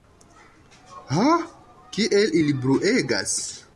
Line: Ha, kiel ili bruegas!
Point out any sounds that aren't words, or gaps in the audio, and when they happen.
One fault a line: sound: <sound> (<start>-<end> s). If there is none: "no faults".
no faults